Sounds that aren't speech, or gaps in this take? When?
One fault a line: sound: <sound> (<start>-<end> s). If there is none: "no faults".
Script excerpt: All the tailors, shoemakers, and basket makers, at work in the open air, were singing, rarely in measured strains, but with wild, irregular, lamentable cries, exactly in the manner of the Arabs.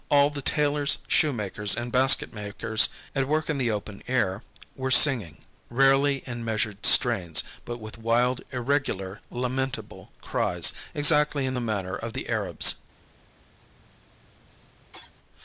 sound: cough (13.6-15.1 s)